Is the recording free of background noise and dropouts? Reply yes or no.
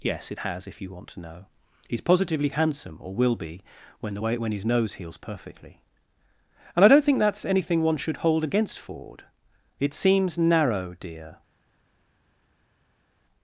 yes